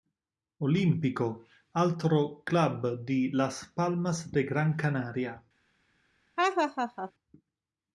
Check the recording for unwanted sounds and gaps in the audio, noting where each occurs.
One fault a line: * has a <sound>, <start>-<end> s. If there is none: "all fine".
* has a laugh, 6.4-7.1 s